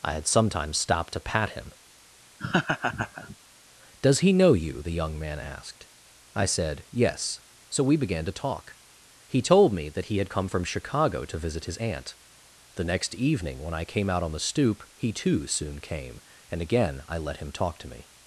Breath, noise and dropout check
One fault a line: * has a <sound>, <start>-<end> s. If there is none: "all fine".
* has a laugh, 2.4-3.4 s